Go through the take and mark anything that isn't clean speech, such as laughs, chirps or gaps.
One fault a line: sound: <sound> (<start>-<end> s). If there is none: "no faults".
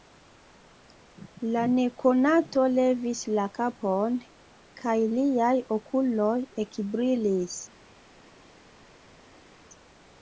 no faults